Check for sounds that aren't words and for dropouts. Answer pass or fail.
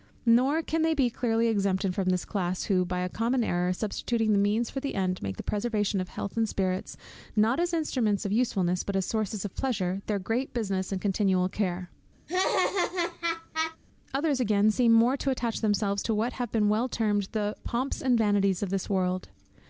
fail